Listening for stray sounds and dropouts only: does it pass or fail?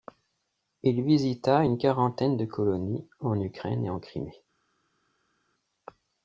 pass